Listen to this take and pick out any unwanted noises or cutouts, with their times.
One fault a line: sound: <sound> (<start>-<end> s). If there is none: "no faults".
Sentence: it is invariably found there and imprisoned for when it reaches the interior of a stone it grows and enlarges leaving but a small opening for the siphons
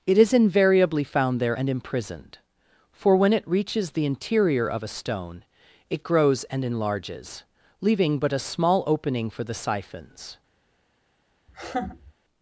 sound: laugh (11.5-12.1 s)